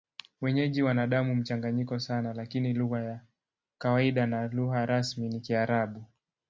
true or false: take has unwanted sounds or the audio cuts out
false